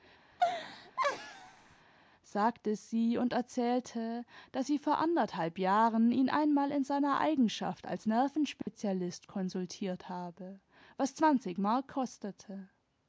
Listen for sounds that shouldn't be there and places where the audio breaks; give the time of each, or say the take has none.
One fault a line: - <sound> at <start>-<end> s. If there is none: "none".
- laugh at 0.3-1.9 s
- dropout at 8.6-8.7 s